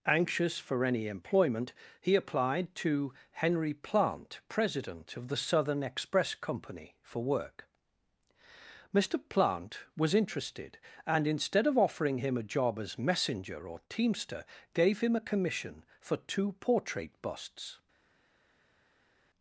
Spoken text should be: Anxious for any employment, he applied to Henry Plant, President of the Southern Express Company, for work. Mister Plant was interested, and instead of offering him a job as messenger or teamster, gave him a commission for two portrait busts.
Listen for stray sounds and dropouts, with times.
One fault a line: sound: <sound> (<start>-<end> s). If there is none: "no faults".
no faults